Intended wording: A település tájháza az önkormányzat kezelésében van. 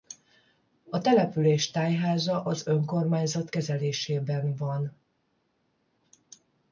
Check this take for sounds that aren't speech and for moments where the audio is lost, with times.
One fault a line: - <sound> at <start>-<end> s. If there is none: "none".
none